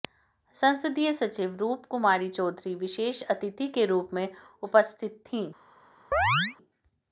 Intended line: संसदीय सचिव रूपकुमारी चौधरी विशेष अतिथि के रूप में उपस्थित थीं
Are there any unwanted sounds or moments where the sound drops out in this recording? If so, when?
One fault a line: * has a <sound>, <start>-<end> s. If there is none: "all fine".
* has a chirp, 6.1-6.6 s